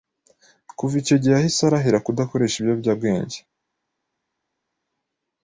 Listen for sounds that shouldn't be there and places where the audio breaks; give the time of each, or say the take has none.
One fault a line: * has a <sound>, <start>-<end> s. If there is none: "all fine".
all fine